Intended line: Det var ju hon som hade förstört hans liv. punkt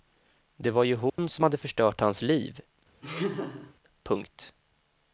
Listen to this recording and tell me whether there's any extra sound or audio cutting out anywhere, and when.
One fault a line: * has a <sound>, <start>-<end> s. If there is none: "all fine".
* has a dropout, 1.1-1.2 s
* has a laugh, 3.0-3.7 s